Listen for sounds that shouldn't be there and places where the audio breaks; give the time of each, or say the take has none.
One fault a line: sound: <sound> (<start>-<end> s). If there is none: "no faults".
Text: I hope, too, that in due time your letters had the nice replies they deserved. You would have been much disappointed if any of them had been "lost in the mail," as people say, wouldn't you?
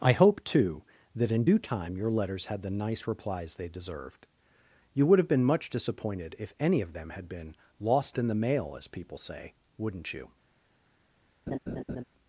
sound: laugh (11.5-12.0 s)